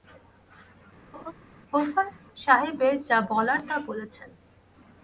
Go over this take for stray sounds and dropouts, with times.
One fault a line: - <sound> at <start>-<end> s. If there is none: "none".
- laugh at 1.1-1.3 s